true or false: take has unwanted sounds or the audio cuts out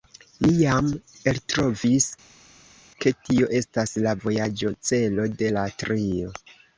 false